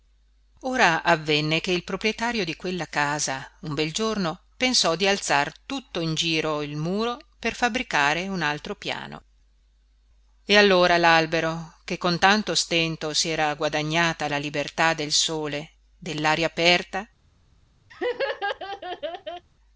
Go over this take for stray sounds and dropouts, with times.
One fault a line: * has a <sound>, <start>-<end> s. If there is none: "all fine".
* has a laugh, 17.9-19.4 s